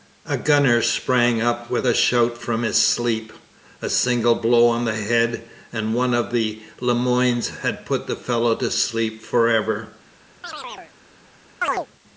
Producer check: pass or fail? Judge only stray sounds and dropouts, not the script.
fail